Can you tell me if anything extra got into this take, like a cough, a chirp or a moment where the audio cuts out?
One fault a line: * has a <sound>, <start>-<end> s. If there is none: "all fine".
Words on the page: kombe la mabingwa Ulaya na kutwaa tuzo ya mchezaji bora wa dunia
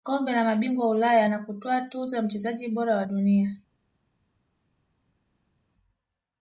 all fine